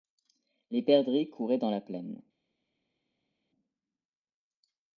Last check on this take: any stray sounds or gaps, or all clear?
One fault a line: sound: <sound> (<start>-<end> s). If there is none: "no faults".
no faults